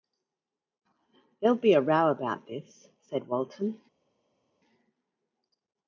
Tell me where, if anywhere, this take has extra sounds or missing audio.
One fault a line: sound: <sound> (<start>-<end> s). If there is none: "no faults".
no faults